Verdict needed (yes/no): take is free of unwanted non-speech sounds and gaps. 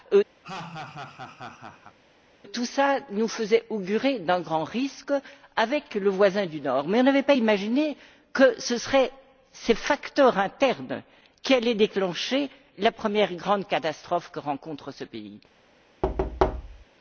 no